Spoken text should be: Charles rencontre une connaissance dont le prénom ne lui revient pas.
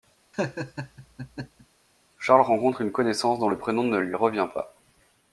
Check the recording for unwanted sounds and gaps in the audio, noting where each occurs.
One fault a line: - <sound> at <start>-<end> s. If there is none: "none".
- laugh at 0.3-1.7 s